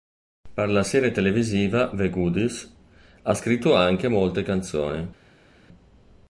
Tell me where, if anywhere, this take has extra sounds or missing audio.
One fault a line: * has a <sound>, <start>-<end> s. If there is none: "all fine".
all fine